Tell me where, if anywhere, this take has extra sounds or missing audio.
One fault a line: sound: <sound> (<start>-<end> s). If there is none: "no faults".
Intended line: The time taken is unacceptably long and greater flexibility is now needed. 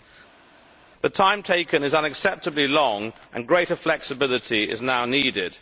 no faults